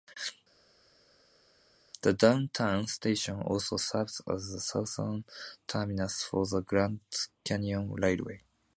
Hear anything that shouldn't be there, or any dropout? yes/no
no